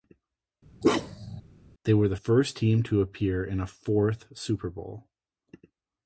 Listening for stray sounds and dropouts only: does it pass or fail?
fail